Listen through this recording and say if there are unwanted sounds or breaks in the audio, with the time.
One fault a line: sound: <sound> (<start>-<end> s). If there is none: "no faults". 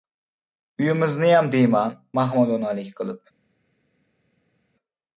no faults